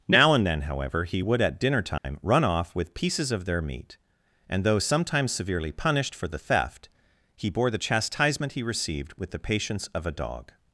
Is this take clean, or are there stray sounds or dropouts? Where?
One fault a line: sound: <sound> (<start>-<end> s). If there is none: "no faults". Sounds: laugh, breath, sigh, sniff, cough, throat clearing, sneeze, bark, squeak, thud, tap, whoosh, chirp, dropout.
sound: dropout (2.0-2.0 s)